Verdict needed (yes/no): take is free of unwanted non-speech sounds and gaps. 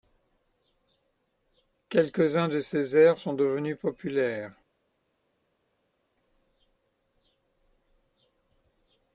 yes